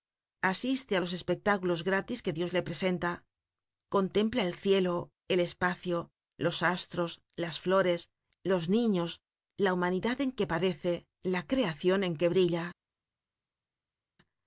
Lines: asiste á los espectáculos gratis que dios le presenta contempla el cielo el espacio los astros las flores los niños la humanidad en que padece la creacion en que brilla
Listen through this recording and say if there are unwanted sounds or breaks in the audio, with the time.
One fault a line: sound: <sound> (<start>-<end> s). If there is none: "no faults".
no faults